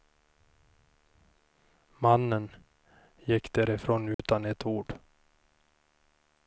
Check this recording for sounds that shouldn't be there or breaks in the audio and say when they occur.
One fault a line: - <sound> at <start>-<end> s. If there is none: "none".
- dropout at 4.1-4.2 s